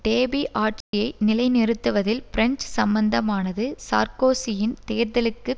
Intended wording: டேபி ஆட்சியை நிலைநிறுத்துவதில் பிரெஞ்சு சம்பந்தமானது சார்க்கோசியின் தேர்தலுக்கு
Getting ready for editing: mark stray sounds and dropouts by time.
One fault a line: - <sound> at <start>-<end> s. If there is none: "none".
- dropout at 0.8-0.9 s